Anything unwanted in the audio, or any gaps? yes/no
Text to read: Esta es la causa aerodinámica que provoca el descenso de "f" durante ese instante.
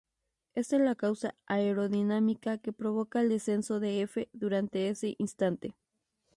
no